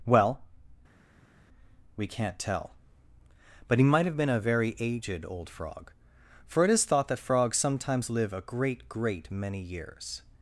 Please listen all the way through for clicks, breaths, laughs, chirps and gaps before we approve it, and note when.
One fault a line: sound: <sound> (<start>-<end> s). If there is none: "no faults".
no faults